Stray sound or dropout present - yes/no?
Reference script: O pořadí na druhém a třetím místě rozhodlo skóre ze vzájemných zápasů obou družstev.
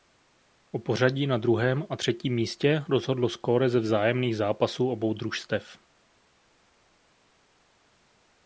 no